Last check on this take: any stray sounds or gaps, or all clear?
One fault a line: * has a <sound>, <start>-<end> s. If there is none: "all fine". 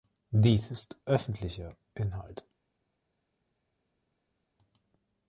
all fine